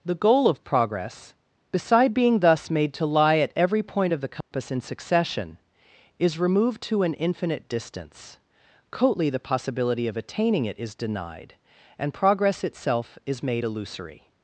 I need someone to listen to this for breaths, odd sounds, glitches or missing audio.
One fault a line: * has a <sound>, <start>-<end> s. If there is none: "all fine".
* has a dropout, 4.4-4.5 s